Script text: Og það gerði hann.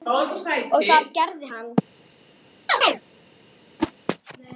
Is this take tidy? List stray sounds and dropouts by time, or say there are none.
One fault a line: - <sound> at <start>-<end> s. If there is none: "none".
- chirp at 2.7-3.0 s
- whoosh at 3.8-3.9 s